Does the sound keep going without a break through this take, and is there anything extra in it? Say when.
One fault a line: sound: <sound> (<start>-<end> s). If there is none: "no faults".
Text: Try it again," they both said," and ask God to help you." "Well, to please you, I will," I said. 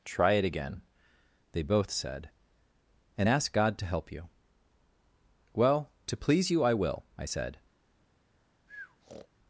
sound: breath (8.7-9.3 s)